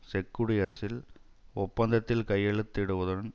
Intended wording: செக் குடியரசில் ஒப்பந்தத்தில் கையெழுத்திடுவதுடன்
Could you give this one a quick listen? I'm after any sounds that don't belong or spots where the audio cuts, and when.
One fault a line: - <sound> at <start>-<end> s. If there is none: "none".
- dropout at 0.6-0.8 s